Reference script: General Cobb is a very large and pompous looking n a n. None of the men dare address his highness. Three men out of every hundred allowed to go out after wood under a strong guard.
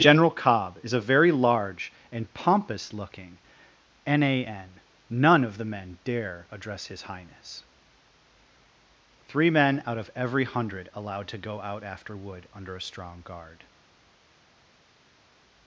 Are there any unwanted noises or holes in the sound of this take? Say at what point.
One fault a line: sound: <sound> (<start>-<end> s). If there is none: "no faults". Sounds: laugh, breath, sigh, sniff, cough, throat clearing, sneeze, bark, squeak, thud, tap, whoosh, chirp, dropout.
no faults